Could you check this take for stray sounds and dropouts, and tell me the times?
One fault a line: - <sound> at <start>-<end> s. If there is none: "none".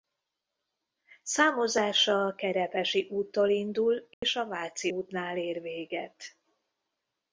- dropout at 4.1-4.2 s